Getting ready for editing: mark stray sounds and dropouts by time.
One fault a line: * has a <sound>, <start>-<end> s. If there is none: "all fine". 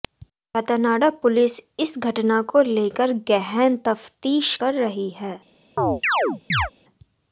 * has a chirp, 5.8-6.7 s